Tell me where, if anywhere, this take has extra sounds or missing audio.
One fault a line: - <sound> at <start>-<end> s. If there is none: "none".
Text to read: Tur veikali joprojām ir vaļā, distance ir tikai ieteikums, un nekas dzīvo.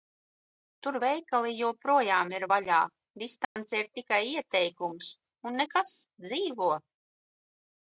- dropout at 3.4-3.6 s